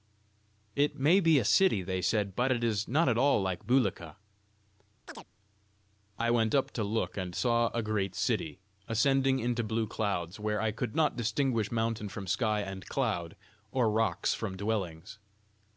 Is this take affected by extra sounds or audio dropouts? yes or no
yes